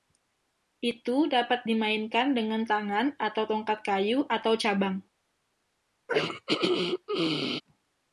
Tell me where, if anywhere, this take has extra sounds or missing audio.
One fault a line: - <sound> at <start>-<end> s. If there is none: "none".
- throat clearing at 6.1-7.6 s